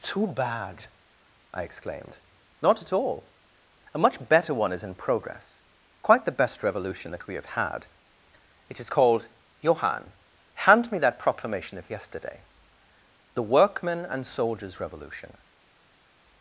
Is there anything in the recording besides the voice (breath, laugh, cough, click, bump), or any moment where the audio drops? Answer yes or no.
no